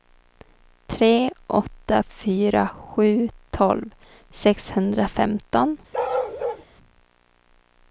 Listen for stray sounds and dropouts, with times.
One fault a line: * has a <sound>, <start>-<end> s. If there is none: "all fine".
* has a bark, 5.9-6.7 s